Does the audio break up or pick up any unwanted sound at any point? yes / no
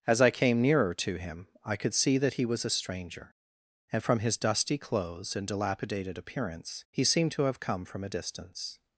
no